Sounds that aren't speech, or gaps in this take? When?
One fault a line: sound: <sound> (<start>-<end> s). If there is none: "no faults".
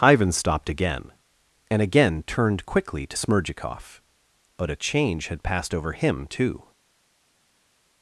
no faults